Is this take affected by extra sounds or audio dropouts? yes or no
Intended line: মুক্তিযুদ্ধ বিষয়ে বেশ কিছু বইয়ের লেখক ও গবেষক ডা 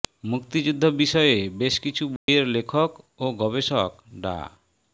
yes